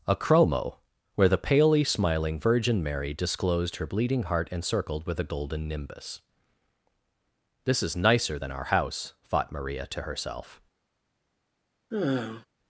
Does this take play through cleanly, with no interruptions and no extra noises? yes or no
no